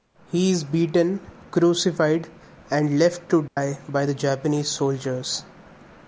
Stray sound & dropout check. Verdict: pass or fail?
fail